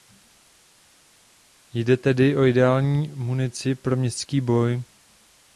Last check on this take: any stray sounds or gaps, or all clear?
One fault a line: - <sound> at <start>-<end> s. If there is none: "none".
none